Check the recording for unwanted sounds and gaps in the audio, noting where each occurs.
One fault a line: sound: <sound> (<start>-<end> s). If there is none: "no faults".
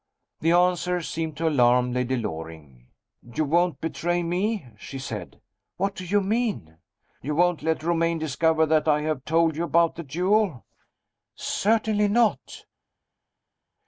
no faults